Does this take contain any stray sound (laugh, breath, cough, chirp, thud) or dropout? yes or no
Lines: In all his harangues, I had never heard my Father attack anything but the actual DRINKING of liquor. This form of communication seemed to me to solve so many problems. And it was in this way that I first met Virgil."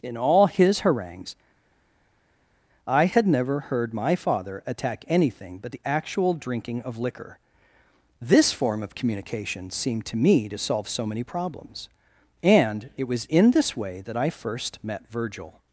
no